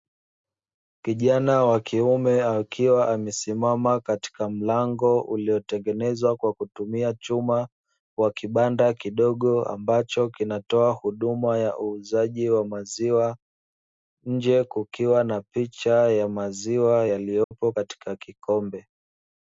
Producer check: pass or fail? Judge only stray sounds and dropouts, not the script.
fail